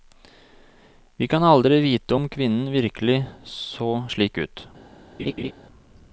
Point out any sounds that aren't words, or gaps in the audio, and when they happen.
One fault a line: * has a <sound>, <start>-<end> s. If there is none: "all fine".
* has a laugh, 5.2-5.5 s